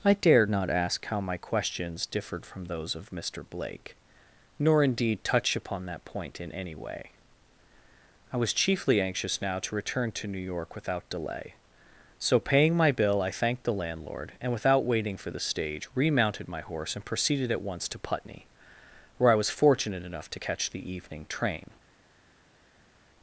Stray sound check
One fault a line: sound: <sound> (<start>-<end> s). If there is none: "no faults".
no faults